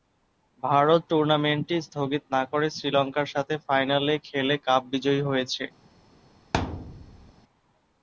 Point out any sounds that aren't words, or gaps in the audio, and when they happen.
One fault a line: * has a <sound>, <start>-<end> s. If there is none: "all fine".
* has a thud, 6.5-7.3 s